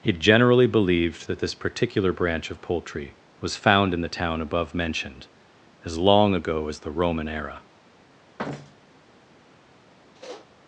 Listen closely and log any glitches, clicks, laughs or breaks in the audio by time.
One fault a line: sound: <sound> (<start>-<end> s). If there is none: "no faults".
sound: thud (8.4-9.0 s)
sound: sniff (10.1-10.5 s)